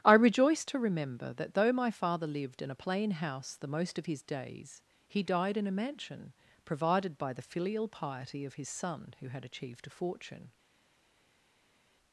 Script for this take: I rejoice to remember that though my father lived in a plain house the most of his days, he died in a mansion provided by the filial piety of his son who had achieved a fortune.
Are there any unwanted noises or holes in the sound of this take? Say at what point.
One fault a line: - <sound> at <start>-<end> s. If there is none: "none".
none